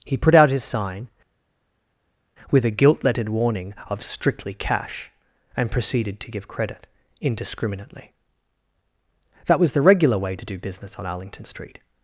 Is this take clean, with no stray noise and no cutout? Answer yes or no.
yes